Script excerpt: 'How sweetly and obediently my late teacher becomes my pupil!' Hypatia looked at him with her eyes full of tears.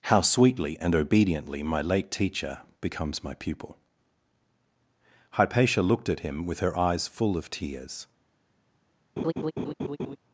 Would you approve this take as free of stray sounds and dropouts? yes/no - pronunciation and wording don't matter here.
no